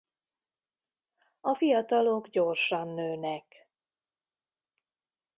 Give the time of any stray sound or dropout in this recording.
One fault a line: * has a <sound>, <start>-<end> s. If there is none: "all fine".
all fine